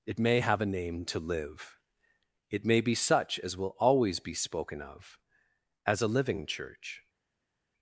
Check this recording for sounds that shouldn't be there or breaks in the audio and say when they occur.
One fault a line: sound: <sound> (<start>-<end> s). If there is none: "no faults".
no faults